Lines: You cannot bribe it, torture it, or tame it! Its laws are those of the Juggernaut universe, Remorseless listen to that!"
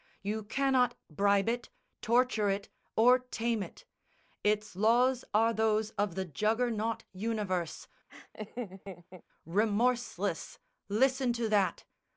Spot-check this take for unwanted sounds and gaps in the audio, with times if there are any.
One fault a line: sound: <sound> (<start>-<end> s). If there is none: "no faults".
sound: laugh (8.1-9.2 s)